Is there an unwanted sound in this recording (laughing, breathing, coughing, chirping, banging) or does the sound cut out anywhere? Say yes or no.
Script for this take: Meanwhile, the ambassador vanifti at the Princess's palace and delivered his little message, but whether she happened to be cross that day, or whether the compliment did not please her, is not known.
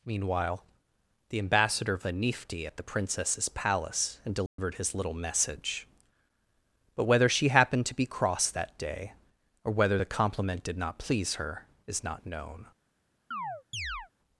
yes